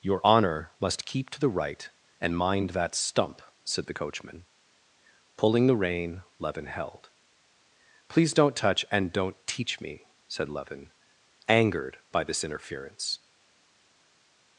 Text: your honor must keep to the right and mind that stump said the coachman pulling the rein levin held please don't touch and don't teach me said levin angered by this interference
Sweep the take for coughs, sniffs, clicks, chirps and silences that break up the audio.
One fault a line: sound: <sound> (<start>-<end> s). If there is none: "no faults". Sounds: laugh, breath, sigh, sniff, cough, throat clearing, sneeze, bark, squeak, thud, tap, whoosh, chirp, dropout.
no faults